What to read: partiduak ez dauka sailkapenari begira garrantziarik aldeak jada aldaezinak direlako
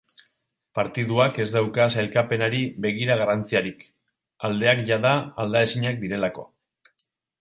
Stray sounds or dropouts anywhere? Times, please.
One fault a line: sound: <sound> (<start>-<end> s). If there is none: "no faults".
no faults